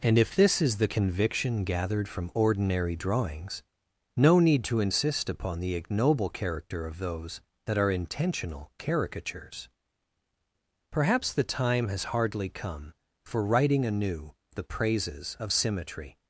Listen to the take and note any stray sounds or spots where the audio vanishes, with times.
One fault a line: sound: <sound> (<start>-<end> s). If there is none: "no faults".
no faults